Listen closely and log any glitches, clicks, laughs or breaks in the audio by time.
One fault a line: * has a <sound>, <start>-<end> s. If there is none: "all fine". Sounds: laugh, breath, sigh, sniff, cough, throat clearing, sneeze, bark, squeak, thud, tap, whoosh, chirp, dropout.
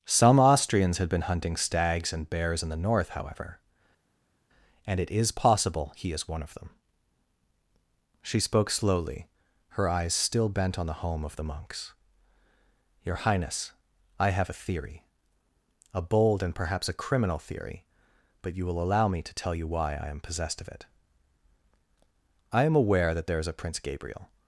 all fine